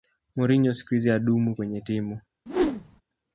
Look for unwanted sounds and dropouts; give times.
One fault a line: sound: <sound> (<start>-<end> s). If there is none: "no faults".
sound: whoosh (2.5-3.0 s)